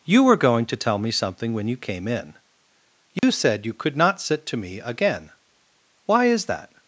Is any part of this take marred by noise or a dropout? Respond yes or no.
yes